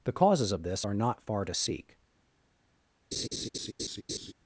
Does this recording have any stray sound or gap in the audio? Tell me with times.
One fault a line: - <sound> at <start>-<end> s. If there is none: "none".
- laugh at 3.1-4.3 s